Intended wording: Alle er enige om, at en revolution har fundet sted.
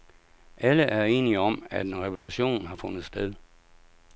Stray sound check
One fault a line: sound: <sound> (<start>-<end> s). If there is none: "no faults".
sound: dropout (2.2-2.3 s)